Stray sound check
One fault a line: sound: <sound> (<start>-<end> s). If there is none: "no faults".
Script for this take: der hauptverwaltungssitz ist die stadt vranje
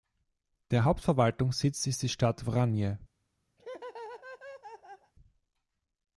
sound: laugh (3.6-5.1 s)